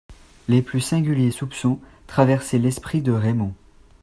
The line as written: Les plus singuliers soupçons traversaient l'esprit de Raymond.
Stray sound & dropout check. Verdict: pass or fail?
pass